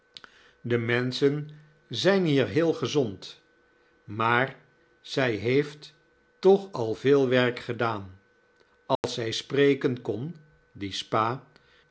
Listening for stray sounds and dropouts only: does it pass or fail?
fail